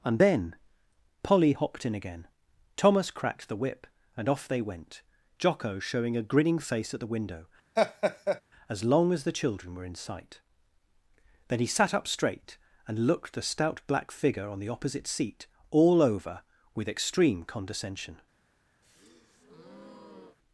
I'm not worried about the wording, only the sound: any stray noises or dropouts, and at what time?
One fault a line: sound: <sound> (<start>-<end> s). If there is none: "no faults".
sound: laugh (7.8-8.4 s)
sound: breath (18.8-20.4 s)